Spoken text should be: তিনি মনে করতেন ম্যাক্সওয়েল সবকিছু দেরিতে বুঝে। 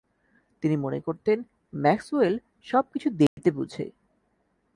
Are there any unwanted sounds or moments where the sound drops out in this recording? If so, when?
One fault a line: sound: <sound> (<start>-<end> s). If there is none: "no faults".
sound: dropout (3.3-3.4 s)